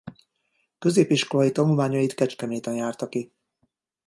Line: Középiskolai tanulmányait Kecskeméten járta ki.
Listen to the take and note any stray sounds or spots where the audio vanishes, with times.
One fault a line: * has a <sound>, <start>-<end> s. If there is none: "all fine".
all fine